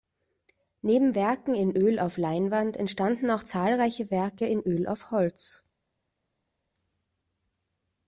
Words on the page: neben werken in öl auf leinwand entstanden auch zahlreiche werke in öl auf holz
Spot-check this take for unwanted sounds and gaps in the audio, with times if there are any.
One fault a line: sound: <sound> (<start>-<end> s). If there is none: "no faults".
no faults